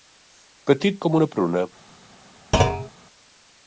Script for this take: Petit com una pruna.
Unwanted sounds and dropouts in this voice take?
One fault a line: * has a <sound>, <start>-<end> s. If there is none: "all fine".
* has a thud, 2.5-2.9 s